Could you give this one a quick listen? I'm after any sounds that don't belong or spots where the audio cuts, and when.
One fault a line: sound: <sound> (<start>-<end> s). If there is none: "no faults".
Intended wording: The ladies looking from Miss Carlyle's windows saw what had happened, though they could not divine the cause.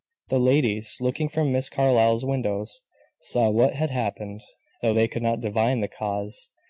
no faults